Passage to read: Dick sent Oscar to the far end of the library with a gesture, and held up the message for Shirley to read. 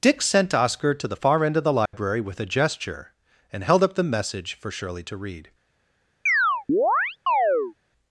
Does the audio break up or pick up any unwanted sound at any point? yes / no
yes